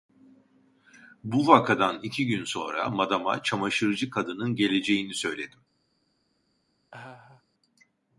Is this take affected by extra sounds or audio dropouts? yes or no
yes